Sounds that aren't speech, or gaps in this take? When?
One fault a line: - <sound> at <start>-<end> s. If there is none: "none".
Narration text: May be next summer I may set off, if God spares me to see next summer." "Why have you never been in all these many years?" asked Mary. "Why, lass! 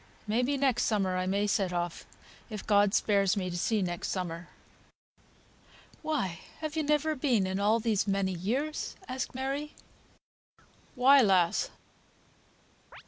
- chirp at 12.9-13.0 s